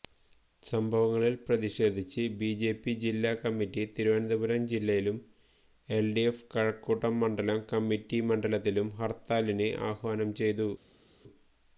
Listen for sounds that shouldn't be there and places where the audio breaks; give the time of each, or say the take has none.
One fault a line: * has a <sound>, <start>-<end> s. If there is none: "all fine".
all fine